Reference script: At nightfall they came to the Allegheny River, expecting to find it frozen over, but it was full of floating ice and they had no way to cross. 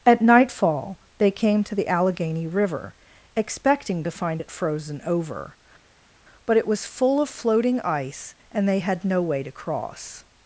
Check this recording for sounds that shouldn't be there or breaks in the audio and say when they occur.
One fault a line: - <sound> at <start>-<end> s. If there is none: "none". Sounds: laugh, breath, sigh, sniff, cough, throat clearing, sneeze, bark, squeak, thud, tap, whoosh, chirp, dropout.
none